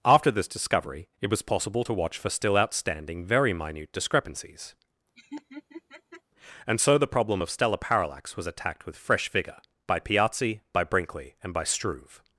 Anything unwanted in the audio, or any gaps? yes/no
yes